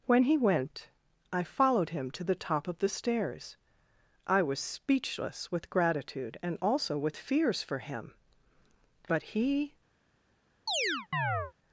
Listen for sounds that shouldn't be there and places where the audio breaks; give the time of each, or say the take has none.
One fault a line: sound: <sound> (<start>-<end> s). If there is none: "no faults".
sound: chirp (10.7-11.5 s)